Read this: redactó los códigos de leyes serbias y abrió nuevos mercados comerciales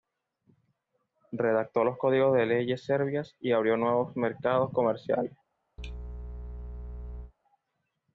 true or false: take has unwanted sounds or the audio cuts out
true